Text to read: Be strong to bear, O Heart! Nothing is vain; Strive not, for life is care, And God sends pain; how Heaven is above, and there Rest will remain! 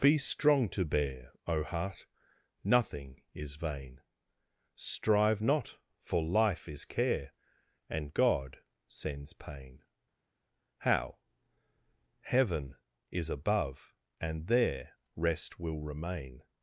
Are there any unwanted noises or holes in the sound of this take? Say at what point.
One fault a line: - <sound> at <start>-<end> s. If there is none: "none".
none